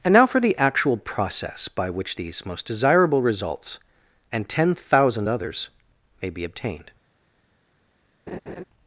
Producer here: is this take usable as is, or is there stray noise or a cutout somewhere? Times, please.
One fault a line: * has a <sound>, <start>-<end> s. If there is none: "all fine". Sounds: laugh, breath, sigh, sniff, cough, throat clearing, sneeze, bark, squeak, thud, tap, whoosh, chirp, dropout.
* has a laugh, 8.3-8.6 s